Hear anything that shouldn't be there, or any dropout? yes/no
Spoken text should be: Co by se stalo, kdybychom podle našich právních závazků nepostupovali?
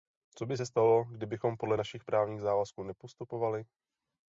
no